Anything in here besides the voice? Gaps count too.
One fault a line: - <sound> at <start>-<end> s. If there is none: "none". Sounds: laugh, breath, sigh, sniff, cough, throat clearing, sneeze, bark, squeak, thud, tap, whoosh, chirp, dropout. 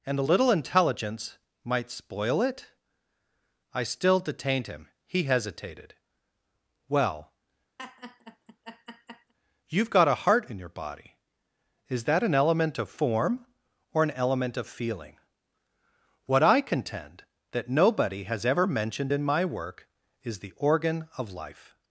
- laugh at 7.8-9.3 s